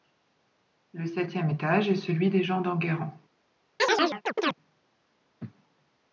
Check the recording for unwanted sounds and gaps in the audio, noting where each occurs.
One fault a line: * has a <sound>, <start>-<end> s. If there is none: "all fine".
* has a chirp, 3.8-4.5 s